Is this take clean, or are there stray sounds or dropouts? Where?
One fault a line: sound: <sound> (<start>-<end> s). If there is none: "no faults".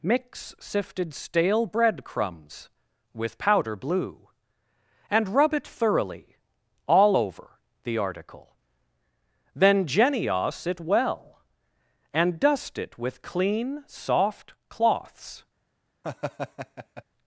sound: laugh (16.0-17.0 s)